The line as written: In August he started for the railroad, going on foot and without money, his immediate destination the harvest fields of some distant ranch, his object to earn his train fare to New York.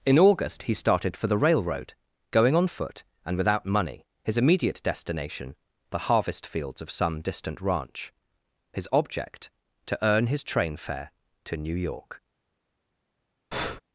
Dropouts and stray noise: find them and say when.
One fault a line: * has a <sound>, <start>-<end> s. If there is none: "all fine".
* has a breath, 13.5-13.8 s